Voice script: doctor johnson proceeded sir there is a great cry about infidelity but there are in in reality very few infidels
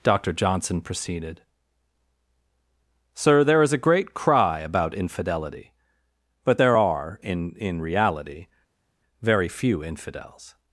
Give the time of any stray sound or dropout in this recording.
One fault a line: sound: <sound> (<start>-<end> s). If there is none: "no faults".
no faults